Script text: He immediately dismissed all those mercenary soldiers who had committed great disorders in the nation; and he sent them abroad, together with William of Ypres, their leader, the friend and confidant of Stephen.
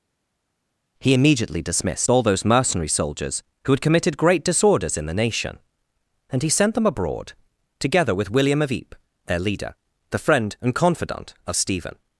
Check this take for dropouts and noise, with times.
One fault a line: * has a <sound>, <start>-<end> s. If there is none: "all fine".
all fine